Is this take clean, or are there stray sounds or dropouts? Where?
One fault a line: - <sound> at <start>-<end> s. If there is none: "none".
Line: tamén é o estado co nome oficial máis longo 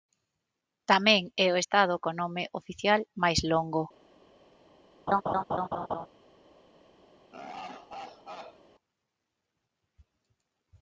- laugh at 5.1-6.1 s
- laugh at 7.3-8.6 s